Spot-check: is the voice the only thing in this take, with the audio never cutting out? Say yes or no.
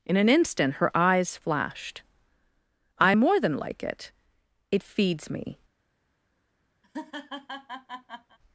no